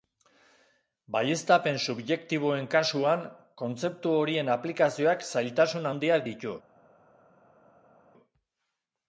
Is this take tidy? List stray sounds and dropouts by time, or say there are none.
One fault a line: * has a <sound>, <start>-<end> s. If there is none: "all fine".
all fine